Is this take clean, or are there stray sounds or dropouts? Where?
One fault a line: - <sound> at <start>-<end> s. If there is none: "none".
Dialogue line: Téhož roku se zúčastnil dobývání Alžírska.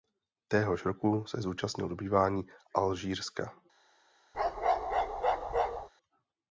- bark at 4.3-5.9 s